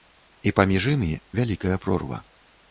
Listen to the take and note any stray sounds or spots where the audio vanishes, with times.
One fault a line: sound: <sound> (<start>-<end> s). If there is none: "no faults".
no faults